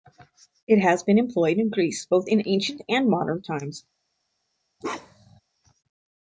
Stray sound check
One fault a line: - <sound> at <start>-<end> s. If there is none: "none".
- bark at 4.8-5.4 s